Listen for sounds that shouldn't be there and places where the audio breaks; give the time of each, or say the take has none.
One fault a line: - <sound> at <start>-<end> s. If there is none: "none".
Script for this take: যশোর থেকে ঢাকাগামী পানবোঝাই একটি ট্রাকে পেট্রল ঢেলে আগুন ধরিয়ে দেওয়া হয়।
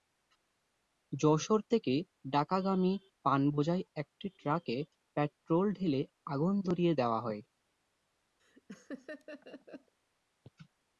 - laugh at 8.4-9.9 s